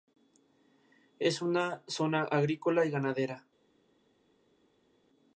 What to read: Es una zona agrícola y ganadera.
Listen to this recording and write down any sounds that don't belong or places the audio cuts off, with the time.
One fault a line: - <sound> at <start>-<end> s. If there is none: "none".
none